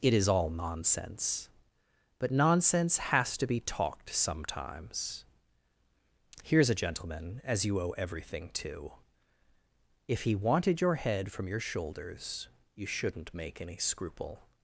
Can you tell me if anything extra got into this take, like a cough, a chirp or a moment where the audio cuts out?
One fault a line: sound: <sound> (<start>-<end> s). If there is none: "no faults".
no faults